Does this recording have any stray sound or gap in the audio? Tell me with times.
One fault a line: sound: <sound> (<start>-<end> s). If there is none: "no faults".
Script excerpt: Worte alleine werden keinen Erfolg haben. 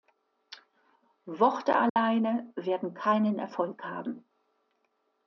sound: dropout (1.9-2.0 s)